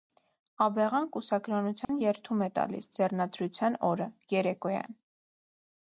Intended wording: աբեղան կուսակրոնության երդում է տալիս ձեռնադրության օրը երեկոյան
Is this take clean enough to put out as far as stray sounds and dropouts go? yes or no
no